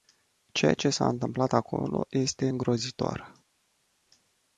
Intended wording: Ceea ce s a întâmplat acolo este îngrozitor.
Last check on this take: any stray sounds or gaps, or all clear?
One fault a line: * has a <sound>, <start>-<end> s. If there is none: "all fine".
all fine